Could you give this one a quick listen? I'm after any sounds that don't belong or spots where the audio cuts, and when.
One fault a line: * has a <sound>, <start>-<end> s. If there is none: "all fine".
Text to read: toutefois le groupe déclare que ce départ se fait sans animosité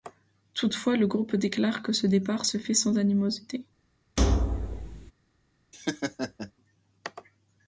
* has a thud, 4.2-5.1 s
* has a laugh, 5.7-6.5 s